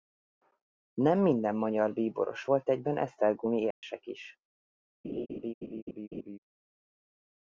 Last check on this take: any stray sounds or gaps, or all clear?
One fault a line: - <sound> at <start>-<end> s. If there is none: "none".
- dropout at 3.7-3.8 s
- laugh at 5.0-6.4 s